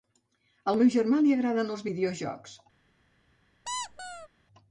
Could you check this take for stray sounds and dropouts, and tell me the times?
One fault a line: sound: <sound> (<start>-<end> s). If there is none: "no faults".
sound: squeak (3.7-4.3 s)